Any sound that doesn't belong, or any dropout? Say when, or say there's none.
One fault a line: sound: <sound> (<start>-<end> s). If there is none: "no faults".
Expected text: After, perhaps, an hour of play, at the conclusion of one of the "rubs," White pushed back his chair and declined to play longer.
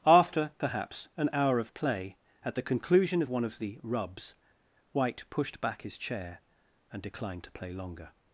no faults